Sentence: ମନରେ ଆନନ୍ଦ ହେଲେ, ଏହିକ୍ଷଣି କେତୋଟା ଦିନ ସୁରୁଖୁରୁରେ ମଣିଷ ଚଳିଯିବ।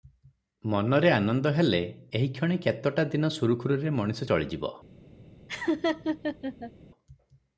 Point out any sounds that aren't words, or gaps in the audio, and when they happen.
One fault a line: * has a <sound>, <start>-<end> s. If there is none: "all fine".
* has a laugh, 5.5-6.7 s